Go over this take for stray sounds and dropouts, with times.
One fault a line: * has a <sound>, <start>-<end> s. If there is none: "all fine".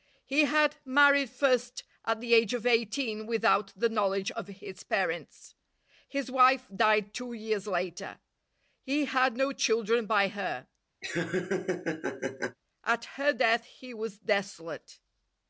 * has a laugh, 11.0-12.6 s